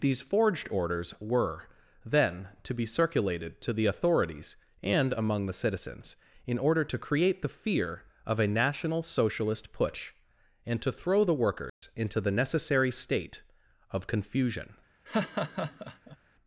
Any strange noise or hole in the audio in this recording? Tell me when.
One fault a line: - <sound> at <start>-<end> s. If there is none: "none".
- dropout at 11.7-11.8 s
- laugh at 15.1-16.2 s